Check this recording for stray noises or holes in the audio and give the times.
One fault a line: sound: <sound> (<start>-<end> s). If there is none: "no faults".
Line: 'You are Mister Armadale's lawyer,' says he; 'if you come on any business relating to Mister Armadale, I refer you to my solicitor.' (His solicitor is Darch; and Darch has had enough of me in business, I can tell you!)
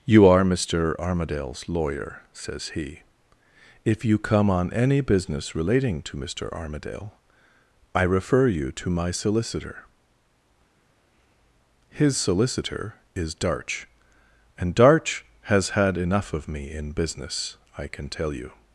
no faults